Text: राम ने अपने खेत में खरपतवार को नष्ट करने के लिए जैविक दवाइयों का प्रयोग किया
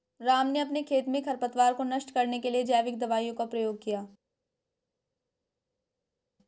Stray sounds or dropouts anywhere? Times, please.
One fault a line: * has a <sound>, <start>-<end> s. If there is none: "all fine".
all fine